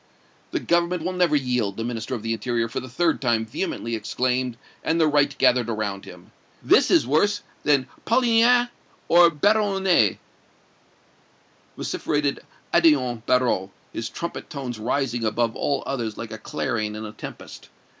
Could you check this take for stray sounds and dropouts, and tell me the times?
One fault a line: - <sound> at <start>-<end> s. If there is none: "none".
none